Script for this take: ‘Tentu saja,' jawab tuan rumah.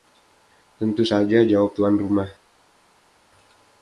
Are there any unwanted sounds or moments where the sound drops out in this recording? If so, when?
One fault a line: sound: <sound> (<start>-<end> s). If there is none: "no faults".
no faults